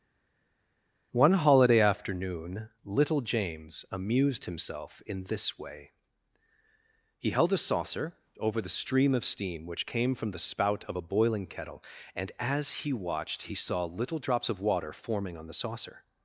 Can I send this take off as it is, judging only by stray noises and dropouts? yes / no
yes